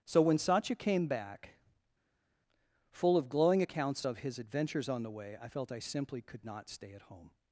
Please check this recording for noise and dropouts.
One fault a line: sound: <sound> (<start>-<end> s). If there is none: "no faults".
no faults